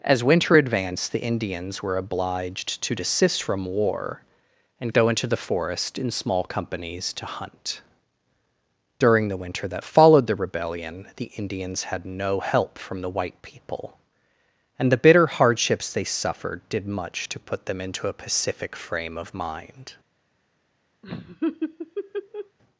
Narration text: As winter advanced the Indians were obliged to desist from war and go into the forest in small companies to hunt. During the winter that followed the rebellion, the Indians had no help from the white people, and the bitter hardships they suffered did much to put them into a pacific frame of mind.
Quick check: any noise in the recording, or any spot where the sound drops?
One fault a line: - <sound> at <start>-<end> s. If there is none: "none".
- laugh at 21.0-22.6 s